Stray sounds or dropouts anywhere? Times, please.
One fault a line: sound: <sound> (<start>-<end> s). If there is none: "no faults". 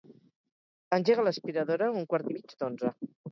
no faults